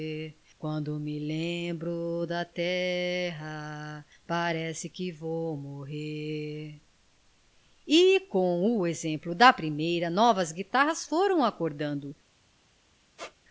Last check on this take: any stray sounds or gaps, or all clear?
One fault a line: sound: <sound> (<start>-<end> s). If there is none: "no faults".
sound: squeak (13.2-13.4 s)